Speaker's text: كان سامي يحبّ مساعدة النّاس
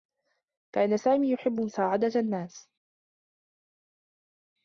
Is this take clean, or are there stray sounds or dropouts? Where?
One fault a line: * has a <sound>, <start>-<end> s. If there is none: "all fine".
all fine